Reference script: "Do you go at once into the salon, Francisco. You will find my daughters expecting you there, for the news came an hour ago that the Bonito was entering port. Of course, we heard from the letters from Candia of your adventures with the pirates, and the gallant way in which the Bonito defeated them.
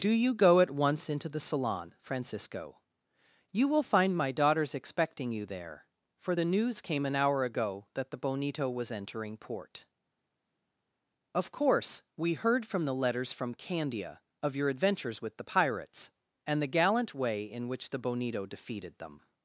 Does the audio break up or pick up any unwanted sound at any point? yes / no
no